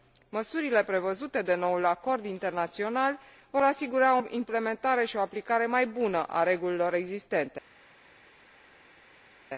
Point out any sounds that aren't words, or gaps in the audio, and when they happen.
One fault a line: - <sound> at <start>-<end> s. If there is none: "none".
none